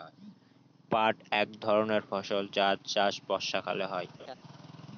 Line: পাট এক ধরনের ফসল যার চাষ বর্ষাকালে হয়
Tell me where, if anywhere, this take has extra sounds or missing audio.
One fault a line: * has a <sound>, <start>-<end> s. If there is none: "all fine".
* has a laugh, 4.2-4.3 s